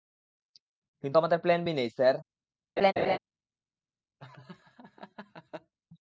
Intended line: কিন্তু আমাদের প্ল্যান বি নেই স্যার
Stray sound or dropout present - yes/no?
yes